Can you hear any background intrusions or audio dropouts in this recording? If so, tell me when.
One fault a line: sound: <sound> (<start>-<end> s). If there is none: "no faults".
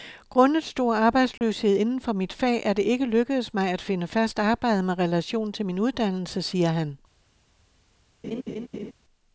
sound: dropout (1.4-1.4 s)
sound: laugh (8.2-8.9 s)